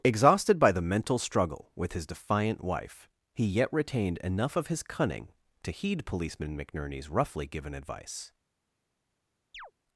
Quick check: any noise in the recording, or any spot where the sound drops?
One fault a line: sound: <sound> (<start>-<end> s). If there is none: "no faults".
sound: chirp (9.5-9.7 s)